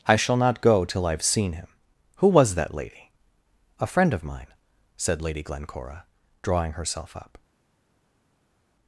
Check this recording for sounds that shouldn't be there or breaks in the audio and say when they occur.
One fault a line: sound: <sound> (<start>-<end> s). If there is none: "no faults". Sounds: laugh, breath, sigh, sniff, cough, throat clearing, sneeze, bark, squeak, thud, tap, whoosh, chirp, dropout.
no faults